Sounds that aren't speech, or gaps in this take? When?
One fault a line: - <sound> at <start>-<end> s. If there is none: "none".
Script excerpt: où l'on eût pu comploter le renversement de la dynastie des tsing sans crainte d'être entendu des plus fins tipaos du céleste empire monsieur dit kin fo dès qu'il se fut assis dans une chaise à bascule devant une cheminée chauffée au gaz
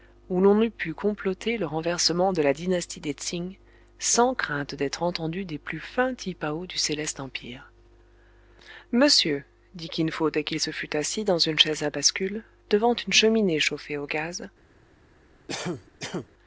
- cough at 15.5-16.3 s